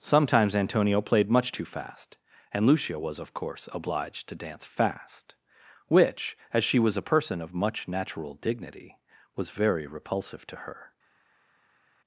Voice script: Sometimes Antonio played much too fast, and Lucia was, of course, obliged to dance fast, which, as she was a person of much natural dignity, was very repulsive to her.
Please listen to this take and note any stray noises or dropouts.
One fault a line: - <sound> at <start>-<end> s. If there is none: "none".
none